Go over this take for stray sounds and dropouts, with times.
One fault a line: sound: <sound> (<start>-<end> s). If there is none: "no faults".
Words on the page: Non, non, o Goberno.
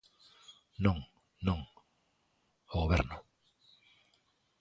no faults